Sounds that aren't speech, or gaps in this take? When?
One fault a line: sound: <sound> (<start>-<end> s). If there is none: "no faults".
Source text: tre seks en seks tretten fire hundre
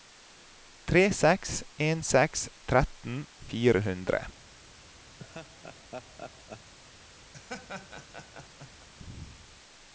sound: laugh (5.2-6.7 s)
sound: laugh (7.3-8.9 s)